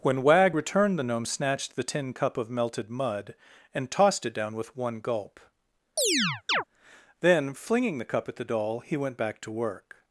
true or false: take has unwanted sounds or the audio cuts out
true